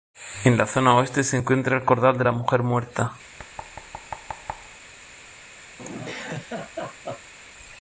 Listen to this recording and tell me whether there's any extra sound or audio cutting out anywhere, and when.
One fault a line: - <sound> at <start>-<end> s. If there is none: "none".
- thud at 3.4-4.8 s
- laugh at 5.8-7.3 s